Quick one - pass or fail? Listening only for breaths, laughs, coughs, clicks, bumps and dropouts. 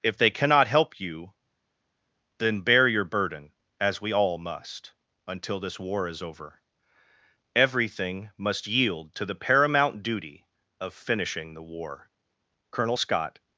pass